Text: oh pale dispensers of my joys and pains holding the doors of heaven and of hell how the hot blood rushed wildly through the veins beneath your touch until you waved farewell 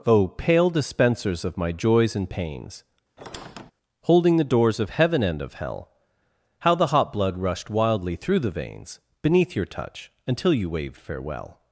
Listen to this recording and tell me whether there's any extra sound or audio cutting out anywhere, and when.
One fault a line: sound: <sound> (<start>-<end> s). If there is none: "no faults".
sound: squeak (3.2-3.7 s)